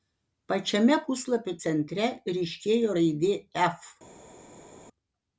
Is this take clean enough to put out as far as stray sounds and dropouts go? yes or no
yes